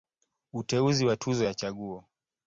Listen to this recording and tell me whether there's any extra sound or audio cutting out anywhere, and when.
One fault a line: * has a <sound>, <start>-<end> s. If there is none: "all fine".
all fine